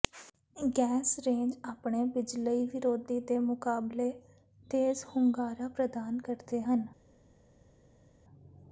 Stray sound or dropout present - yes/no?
no